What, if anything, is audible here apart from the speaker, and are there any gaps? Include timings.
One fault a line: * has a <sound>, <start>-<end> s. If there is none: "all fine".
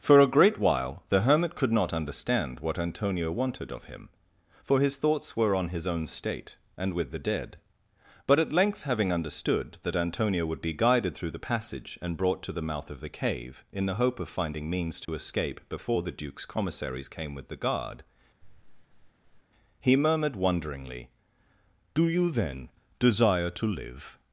* has a dropout, 15.0-15.1 s
* has a sigh, 18.4-19.4 s